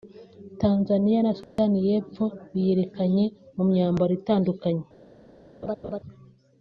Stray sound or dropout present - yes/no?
yes